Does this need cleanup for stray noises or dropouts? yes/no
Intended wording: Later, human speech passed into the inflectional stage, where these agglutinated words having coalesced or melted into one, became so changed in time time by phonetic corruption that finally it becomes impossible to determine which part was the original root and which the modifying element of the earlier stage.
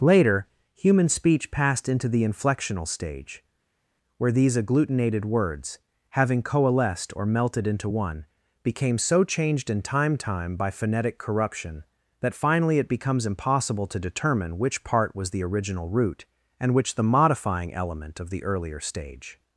no